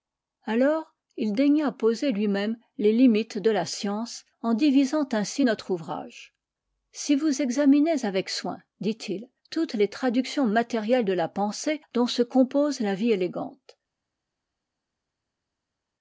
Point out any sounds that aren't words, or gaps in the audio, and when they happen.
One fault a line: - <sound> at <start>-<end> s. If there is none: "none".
none